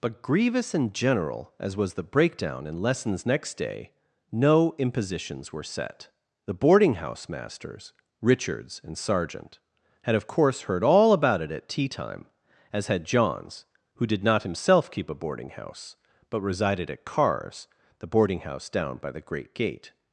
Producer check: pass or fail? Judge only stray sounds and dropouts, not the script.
pass